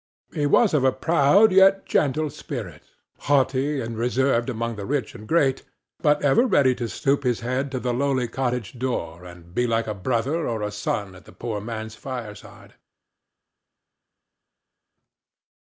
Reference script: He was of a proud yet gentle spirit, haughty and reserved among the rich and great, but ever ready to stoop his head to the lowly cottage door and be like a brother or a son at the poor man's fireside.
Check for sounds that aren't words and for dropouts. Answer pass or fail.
pass